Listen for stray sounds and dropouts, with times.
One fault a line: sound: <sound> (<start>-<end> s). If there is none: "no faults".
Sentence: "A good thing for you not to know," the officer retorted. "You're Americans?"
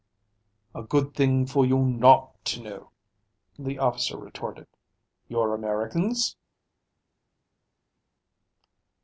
no faults